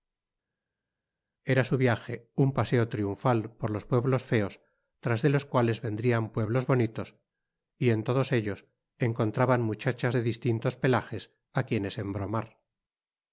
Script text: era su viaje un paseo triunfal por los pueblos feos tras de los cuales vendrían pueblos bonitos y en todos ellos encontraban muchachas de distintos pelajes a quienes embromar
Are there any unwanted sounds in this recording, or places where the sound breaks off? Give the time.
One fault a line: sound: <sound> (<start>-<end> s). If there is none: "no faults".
no faults